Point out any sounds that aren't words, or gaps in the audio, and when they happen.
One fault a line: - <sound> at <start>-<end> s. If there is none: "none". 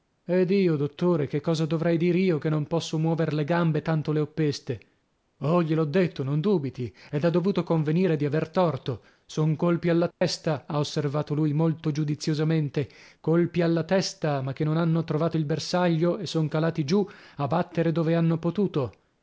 - dropout at 10.1-10.2 s